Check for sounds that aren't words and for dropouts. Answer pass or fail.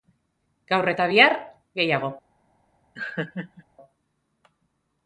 fail